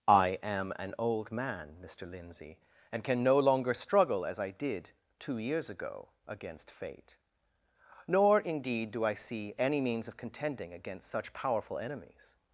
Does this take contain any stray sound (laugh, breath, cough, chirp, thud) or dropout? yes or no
no